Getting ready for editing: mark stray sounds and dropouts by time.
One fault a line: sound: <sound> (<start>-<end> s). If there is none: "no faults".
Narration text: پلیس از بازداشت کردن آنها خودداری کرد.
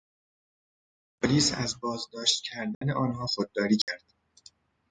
sound: dropout (2.7-2.8 s)
sound: dropout (3.8-3.9 s)